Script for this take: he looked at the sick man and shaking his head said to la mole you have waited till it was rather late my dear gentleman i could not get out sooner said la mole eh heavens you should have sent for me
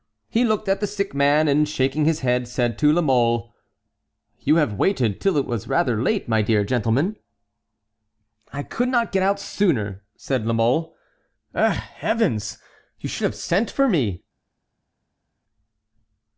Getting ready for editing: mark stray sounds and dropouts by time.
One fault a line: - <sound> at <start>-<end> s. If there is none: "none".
none